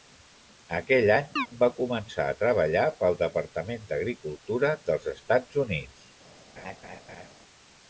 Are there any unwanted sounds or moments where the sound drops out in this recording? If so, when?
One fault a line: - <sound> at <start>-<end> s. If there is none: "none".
- chirp at 1.4-1.5 s
- laugh at 6.6-7.3 s